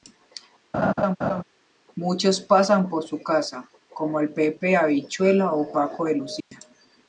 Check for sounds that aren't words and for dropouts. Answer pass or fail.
fail